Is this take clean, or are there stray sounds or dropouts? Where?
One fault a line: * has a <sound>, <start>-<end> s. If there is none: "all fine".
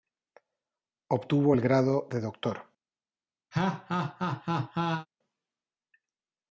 * has a laugh, 3.5-5.1 s